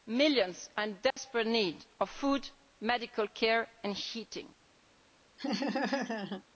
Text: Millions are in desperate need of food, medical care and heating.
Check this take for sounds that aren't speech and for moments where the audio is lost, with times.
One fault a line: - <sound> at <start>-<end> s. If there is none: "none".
- dropout at 1.1-1.2 s
- laugh at 5.4-6.4 s